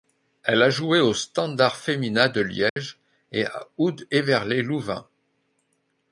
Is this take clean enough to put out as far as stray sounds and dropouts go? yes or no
no